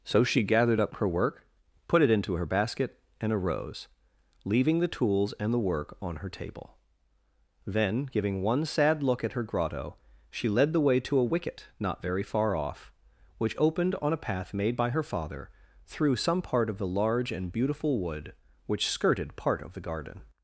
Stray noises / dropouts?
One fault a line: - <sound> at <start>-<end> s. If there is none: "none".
none